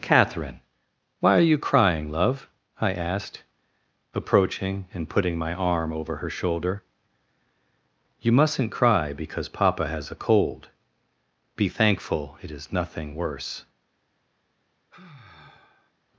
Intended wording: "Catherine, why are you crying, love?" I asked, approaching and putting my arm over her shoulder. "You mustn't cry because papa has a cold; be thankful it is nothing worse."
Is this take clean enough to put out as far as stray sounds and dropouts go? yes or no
no